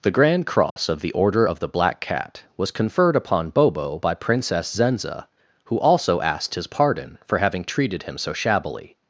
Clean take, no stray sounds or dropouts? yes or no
no